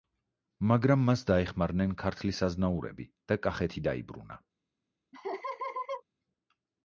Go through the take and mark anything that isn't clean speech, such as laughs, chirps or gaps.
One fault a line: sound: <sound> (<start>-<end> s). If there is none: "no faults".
sound: laugh (5.1-6.0 s)